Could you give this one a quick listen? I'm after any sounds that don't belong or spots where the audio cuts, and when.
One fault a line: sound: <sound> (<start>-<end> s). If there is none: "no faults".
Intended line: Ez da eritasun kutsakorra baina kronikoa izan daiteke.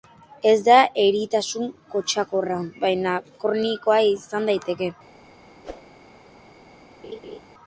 sound: whoosh (5.6-5.9 s)
sound: laugh (7.0-7.4 s)